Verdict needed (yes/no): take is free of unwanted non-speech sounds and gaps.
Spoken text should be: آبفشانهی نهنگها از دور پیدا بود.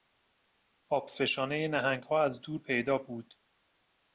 yes